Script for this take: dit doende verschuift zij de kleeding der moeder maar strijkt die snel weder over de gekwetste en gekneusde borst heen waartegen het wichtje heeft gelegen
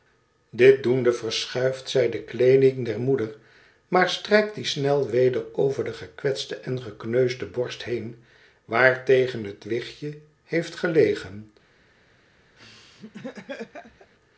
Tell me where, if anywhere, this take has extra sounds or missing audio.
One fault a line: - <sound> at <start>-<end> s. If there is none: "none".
- laugh at 12.6-14.1 s